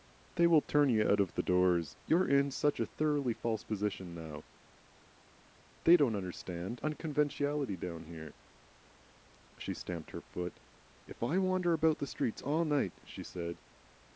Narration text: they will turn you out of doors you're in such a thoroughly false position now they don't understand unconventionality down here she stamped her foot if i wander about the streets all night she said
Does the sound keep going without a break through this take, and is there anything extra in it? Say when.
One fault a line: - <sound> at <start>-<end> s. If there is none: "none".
none